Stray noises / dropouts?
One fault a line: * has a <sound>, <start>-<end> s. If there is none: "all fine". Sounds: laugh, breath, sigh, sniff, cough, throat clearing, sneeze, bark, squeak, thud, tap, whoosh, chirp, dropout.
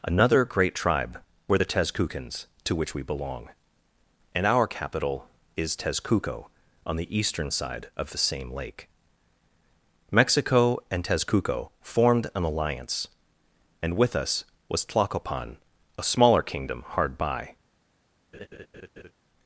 * has a laugh, 18.3-19.1 s